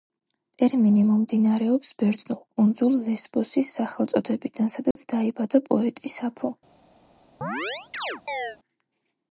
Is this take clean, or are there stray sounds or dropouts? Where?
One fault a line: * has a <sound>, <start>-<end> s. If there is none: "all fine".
* has a dropout, 4.9-5.0 s
* has a chirp, 7.4-8.6 s